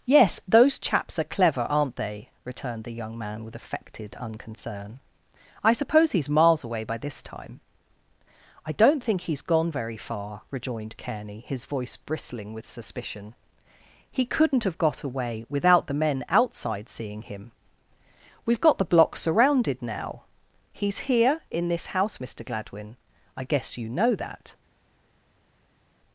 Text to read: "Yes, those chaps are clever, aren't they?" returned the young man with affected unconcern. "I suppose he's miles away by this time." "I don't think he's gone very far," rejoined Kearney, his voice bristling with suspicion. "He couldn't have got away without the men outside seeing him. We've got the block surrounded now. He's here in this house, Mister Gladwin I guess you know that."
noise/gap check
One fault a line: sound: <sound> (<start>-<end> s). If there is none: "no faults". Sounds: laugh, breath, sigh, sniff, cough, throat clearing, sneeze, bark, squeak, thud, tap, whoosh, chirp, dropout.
no faults